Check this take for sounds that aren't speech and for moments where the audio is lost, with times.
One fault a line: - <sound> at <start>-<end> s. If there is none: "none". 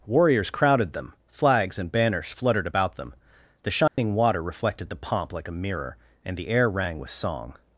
- dropout at 3.9-4.0 s